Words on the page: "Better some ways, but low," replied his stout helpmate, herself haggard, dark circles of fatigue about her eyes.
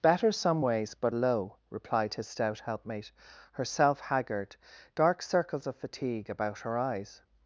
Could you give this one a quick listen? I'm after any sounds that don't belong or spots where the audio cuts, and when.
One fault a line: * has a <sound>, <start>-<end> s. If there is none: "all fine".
all fine